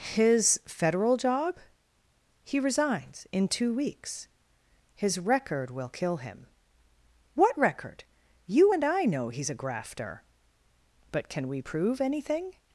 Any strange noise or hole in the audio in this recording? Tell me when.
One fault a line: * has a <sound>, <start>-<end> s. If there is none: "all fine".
all fine